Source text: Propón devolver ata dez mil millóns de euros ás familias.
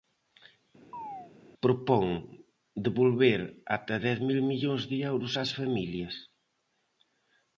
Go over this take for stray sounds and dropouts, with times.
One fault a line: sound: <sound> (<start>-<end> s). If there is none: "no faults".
sound: chirp (0.9-1.3 s)